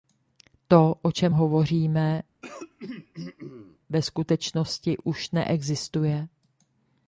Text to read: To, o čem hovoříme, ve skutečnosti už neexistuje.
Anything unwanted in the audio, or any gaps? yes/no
yes